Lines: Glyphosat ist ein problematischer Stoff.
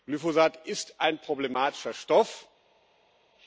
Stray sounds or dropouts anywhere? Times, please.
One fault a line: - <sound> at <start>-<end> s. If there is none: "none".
none